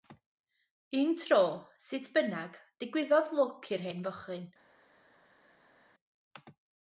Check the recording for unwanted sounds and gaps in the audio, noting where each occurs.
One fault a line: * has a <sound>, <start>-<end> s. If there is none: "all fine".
all fine